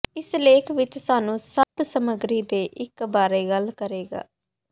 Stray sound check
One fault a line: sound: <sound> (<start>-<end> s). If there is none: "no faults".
sound: dropout (1.6-1.8 s)